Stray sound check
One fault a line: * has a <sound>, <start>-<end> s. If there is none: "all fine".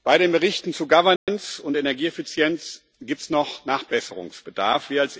* has a dropout, 1.2-1.3 s